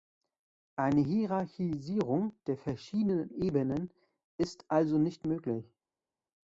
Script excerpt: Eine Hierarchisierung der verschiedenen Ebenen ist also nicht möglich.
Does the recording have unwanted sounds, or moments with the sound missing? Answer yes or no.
no